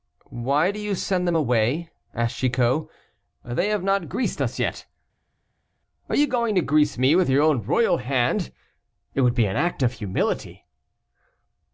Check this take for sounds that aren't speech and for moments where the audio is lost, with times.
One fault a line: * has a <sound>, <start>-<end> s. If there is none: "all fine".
all fine